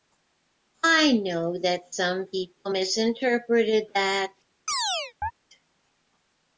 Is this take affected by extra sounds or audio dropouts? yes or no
yes